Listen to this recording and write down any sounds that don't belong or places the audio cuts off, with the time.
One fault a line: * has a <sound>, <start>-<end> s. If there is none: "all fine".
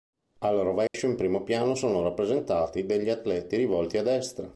* has a dropout, 0.9-0.9 s